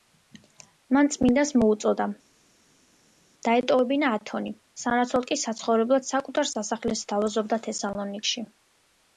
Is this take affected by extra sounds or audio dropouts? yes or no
no